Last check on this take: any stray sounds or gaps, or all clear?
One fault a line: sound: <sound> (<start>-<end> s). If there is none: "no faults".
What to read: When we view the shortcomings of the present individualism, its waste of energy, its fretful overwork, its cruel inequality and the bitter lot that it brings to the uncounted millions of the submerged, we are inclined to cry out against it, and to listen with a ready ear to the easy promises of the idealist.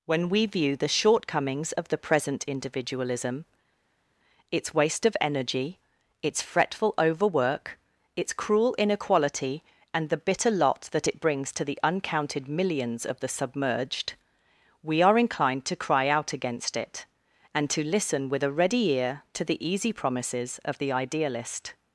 no faults